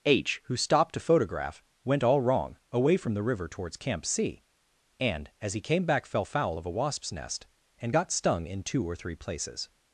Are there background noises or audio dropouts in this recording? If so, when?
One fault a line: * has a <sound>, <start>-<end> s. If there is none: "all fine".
all fine